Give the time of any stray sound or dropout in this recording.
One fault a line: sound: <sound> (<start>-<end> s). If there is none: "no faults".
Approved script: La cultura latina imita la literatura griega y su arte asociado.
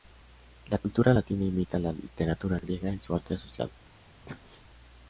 sound: sneeze (4.3-4.6 s)